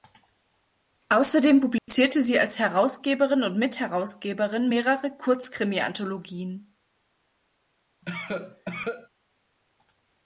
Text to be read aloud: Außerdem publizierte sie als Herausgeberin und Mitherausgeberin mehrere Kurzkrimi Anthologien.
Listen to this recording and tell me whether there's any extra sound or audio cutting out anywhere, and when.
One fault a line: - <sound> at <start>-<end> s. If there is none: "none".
- dropout at 1.8-1.9 s
- cough at 8.0-9.1 s